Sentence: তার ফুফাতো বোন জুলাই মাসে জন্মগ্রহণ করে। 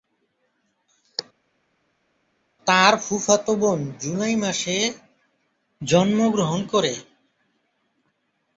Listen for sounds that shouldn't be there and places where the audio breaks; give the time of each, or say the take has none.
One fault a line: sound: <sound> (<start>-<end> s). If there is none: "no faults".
no faults